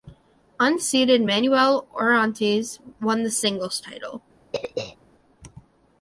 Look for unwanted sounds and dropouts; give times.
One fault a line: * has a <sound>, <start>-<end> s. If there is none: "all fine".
* has a throat clearing, 4.5-5.0 s